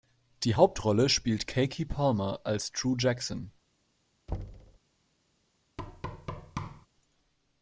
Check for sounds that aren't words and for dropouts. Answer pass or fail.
fail